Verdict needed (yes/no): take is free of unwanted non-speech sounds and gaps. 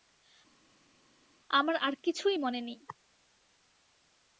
yes